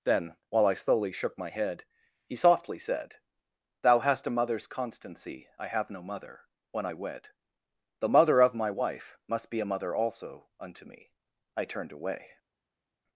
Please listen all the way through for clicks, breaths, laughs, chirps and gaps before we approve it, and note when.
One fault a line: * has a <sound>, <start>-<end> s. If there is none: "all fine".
all fine